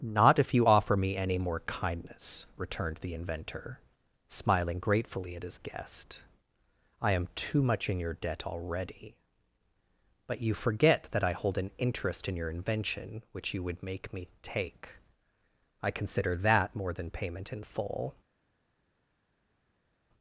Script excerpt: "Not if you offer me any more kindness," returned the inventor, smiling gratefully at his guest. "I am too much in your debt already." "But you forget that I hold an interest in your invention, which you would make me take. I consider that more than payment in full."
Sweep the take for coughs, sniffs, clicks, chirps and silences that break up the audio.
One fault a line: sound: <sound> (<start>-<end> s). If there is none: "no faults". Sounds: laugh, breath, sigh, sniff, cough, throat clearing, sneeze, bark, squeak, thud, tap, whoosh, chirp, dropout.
no faults